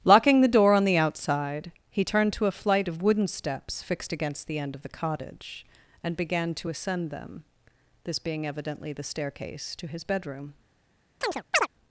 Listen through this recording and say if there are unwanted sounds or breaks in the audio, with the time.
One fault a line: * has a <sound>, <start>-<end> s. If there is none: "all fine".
* has a chirp, 11.2-11.7 s